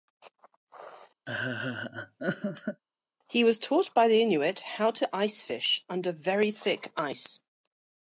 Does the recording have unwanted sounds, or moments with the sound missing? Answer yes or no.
yes